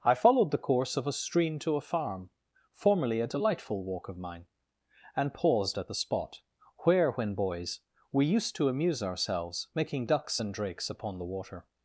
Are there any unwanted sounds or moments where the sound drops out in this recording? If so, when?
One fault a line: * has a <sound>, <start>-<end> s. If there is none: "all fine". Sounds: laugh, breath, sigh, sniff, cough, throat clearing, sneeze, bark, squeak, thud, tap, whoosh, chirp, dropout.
all fine